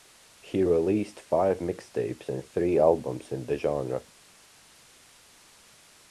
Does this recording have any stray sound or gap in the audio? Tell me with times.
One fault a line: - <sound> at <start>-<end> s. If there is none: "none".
none